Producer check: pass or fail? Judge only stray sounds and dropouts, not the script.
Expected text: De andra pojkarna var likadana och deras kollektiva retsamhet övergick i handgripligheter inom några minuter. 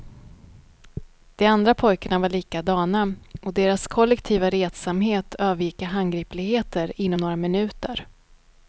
pass